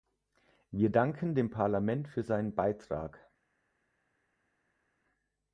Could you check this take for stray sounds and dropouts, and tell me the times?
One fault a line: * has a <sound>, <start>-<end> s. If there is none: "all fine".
all fine